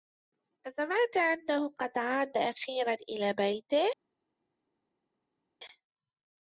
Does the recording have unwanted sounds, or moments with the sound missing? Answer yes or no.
no